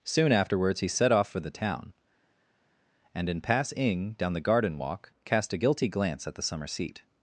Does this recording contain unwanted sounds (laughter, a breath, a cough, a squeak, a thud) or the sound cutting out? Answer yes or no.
no